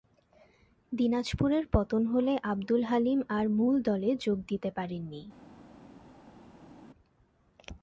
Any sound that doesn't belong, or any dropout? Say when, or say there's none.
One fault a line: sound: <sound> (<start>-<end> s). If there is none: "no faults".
no faults